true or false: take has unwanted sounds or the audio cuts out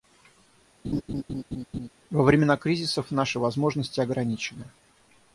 true